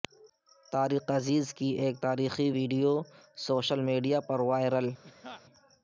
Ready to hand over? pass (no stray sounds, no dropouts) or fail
fail